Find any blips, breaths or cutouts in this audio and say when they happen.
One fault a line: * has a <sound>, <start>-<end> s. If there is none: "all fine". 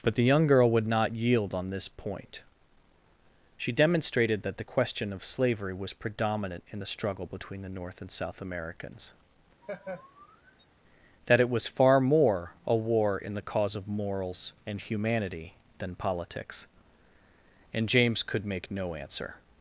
* has a laugh, 9.6-10.7 s